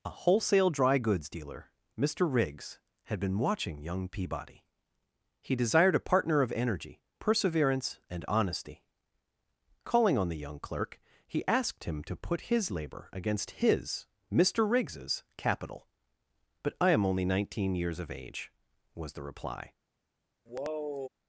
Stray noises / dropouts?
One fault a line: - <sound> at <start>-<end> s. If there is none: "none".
- sigh at 20.5-21.1 s